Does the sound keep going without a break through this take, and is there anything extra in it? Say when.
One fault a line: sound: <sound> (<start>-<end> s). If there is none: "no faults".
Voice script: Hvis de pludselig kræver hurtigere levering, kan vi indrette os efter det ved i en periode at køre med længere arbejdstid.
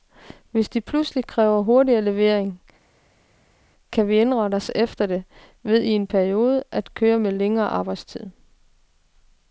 no faults